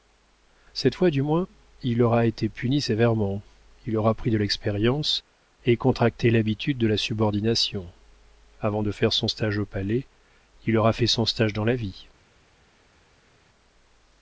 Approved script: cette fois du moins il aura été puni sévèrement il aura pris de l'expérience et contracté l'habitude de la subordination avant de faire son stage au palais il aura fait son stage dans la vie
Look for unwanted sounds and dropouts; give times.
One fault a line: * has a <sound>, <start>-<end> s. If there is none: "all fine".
all fine